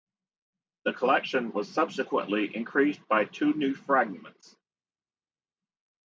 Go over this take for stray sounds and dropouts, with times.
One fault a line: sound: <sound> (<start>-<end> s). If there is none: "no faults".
no faults